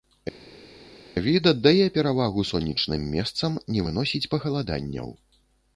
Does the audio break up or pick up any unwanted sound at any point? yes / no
no